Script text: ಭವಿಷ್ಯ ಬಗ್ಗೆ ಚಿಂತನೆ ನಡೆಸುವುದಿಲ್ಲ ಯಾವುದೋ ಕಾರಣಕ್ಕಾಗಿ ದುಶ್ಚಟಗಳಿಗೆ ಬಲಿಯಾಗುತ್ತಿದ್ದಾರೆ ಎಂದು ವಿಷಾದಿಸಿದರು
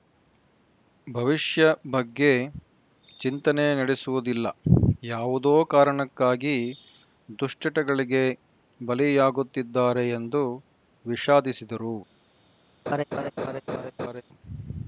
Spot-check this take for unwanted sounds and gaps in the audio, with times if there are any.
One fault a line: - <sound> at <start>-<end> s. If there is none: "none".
- laugh at 12.9-14.2 s